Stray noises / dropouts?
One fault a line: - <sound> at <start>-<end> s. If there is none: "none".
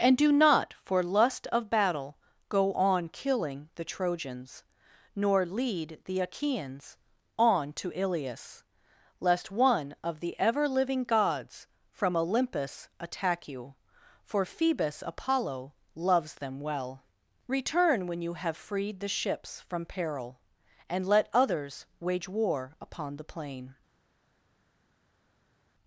none